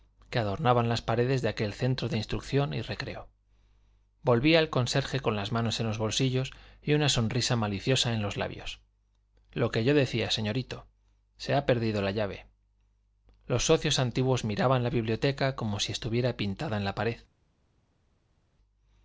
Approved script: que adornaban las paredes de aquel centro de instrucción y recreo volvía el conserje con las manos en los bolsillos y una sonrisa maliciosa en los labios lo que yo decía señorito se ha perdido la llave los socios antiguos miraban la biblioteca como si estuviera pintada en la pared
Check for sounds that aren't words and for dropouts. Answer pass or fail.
pass